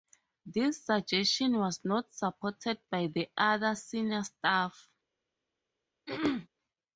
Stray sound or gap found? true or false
true